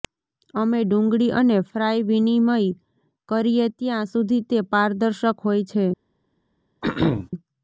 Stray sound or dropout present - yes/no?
yes